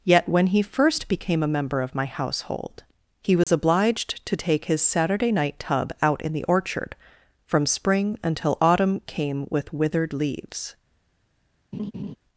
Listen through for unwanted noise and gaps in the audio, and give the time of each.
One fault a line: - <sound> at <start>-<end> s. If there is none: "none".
- dropout at 3.4-3.5 s
- laugh at 11.7-12.2 s